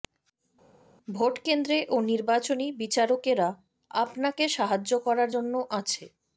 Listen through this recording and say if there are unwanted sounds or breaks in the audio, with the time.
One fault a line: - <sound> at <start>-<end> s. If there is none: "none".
none